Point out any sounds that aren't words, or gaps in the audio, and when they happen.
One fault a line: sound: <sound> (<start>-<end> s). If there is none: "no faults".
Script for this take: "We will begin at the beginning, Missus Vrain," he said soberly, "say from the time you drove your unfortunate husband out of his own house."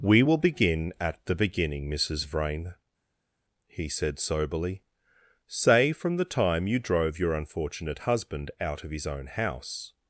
no faults